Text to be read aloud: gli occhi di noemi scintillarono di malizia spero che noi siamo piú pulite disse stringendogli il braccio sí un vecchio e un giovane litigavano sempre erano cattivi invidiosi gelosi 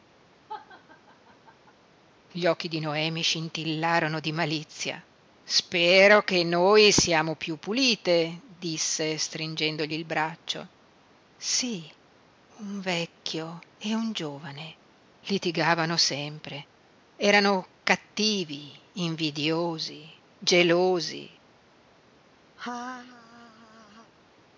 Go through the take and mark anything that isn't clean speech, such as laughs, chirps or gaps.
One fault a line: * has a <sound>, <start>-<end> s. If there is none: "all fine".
* has a laugh, 0.5-1.7 s
* has a laugh, 22.6-24.1 s